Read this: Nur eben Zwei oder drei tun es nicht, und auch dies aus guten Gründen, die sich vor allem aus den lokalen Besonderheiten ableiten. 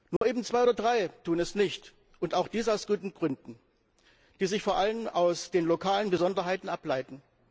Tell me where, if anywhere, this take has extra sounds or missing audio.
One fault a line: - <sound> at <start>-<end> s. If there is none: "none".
- dropout at 0.2-0.2 s